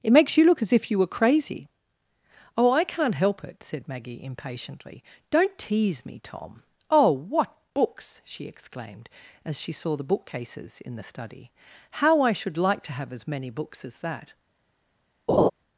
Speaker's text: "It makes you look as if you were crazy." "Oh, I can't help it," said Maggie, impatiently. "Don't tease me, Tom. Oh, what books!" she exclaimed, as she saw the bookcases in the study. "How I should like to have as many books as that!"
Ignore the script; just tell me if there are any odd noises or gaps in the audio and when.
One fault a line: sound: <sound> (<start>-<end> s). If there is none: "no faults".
sound: laugh (15.3-15.5 s)